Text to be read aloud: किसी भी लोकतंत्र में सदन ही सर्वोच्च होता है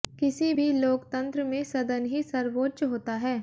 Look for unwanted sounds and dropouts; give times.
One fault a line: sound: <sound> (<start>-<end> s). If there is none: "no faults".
no faults